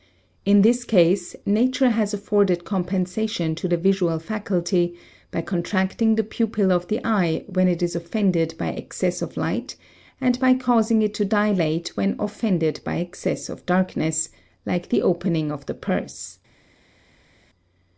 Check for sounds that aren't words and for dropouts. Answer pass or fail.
pass